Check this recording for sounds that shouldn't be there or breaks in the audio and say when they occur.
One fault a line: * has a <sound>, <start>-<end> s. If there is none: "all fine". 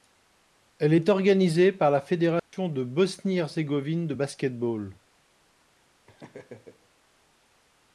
* has a dropout, 2.4-2.5 s
* has a laugh, 6.1-6.9 s